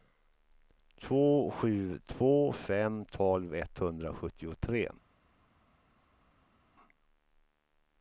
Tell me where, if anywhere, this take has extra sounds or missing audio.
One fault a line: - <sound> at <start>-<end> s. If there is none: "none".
none